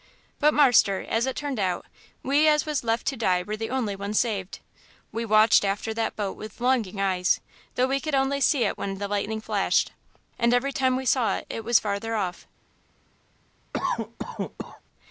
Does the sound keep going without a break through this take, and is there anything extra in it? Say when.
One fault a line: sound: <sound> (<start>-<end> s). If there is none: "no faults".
sound: cough (13.7-14.8 s)